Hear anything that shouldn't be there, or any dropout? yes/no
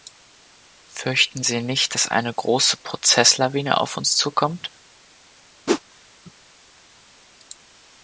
yes